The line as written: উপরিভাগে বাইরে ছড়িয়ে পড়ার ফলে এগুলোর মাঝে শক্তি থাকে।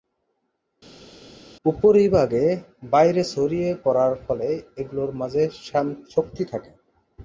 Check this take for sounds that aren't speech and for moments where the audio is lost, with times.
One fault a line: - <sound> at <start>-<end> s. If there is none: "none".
none